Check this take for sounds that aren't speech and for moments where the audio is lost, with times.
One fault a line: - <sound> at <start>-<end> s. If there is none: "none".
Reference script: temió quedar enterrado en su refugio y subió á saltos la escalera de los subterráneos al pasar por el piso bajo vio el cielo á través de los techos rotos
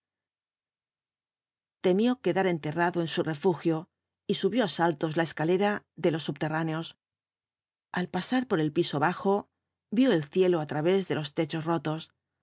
none